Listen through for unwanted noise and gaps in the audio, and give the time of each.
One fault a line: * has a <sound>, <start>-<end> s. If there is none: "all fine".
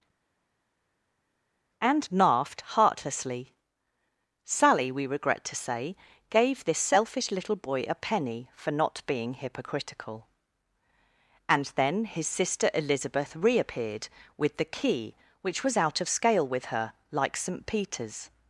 all fine